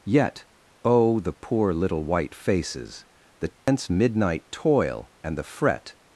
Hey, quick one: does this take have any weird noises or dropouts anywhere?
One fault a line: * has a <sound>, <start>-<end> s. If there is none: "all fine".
* has a dropout, 3.6-3.7 s